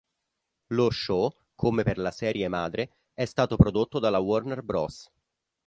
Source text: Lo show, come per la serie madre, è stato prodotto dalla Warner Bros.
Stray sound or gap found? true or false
false